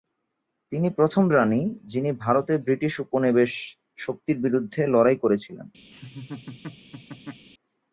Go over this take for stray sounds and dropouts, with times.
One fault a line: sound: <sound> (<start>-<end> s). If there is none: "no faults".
sound: laugh (5.9-7.4 s)